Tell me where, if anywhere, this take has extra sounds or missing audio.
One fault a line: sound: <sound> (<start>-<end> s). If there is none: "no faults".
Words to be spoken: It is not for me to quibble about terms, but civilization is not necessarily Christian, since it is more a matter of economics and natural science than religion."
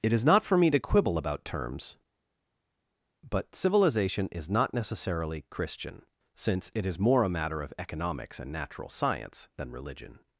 no faults